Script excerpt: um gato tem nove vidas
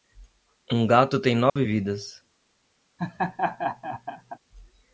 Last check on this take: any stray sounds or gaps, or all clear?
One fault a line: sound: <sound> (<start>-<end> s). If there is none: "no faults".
sound: dropout (1.5-1.6 s)
sound: laugh (3.0-4.4 s)